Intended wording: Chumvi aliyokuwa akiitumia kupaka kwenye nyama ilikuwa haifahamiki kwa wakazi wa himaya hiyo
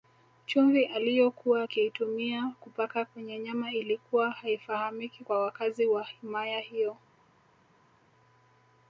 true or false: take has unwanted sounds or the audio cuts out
false